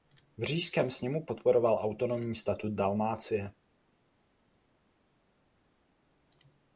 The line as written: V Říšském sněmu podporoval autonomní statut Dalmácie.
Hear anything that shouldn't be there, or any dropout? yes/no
no